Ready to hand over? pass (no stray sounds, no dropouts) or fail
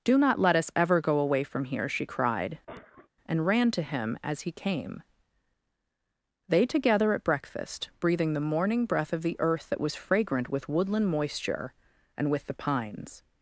fail